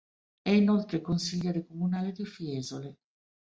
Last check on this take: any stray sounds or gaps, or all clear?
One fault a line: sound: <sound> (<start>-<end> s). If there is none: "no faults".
no faults